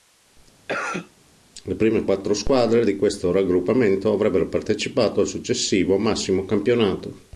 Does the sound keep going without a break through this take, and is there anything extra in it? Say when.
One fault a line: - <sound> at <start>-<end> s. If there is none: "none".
- cough at 0.7-1.1 s